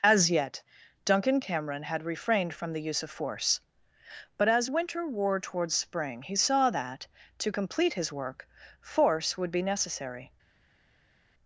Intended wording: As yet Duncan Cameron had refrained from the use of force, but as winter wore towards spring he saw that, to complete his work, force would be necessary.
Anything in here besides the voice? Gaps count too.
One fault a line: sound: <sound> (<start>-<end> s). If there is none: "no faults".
no faults